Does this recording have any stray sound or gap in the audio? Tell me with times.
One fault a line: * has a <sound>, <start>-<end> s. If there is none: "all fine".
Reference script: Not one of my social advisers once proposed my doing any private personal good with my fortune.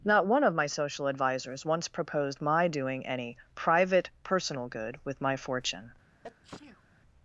* has a sneeze, 6.2-6.8 s